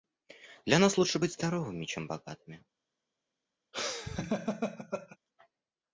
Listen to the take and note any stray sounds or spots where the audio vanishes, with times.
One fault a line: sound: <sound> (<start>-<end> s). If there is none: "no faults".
sound: laugh (3.7-5.2 s)